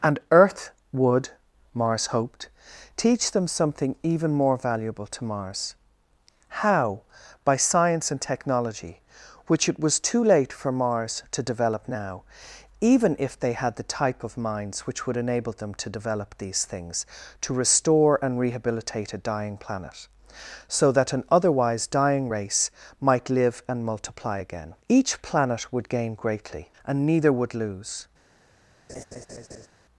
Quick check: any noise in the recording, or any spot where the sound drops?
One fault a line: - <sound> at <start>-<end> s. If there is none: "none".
- laugh at 28.9-29.7 s